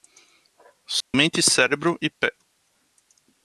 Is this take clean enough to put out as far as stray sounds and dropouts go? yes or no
no